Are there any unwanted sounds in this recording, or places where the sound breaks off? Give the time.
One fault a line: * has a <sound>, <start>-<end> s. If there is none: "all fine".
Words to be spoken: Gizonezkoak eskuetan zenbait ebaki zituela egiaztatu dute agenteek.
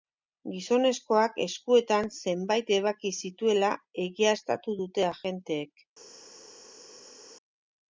all fine